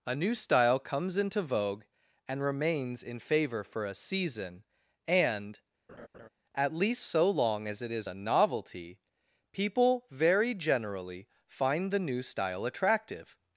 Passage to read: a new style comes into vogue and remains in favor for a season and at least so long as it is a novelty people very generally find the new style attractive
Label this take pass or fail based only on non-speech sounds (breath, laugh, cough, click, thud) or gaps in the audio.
fail